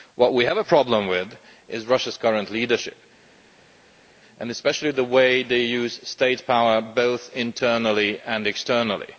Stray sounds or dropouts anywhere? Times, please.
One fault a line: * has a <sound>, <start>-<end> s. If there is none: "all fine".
all fine